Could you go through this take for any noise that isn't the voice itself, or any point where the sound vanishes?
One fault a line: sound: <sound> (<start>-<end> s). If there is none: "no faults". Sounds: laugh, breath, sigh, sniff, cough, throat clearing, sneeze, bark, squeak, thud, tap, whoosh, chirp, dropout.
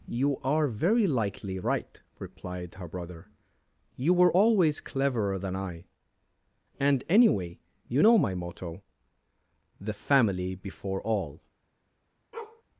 sound: bark (12.3-12.6 s)